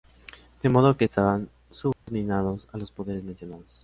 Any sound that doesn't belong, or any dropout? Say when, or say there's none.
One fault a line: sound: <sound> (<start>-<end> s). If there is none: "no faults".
sound: dropout (1.9-2.1 s)